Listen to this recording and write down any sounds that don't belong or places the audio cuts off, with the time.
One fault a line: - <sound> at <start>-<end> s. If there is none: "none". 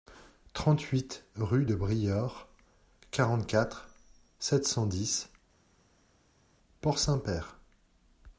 none